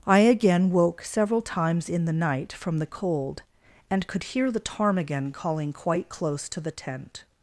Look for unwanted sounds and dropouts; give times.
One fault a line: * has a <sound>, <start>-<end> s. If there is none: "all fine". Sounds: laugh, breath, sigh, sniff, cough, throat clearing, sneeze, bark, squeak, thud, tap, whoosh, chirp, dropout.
all fine